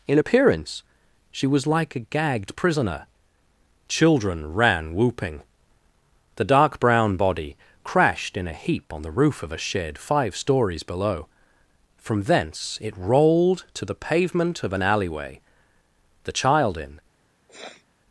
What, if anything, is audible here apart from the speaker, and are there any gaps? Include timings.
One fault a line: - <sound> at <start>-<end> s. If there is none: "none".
- sniff at 17.5-17.9 s